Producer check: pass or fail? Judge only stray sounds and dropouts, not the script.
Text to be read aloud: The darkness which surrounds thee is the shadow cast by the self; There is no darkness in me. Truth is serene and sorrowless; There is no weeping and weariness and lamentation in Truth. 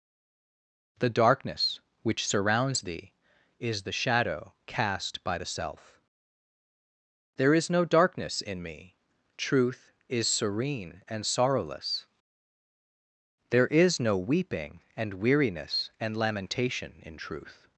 pass